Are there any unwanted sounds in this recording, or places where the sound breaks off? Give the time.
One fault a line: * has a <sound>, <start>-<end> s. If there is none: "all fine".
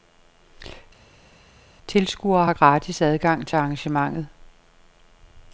all fine